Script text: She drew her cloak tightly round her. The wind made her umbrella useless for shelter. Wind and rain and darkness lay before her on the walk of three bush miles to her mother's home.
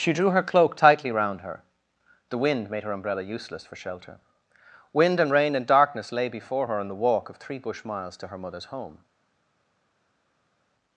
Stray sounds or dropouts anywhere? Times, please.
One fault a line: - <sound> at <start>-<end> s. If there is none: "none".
none